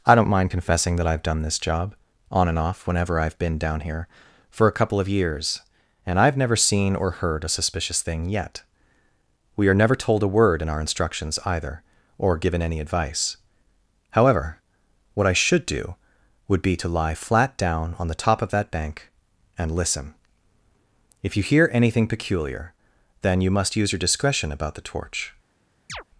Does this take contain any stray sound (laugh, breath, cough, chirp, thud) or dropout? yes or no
yes